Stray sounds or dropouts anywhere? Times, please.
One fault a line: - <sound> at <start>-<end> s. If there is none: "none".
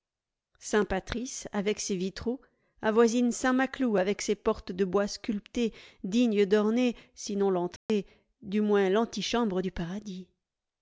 - dropout at 7.8-7.9 s